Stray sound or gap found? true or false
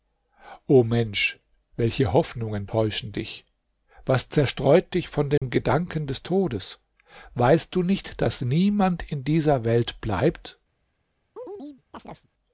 true